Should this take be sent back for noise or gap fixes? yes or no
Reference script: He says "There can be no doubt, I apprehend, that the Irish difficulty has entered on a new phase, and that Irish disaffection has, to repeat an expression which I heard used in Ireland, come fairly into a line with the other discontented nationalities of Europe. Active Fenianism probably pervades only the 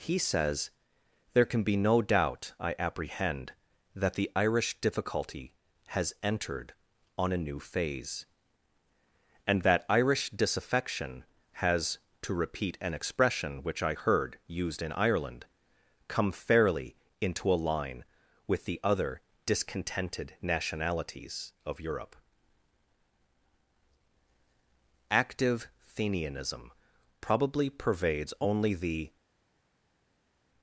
no